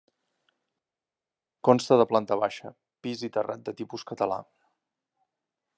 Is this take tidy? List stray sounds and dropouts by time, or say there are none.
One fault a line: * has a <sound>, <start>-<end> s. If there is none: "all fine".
all fine